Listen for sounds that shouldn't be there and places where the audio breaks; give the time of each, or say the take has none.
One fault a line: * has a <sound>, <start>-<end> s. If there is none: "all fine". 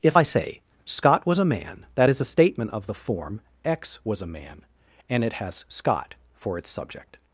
all fine